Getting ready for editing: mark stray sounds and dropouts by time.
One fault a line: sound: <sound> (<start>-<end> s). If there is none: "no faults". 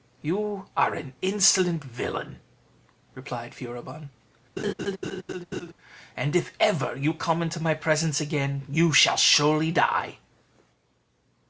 sound: laugh (4.6-5.7 s)